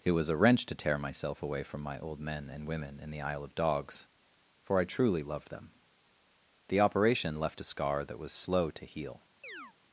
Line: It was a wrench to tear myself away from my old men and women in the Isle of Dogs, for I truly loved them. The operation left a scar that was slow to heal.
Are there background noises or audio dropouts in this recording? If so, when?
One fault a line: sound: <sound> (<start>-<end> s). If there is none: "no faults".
sound: chirp (9.4-9.7 s)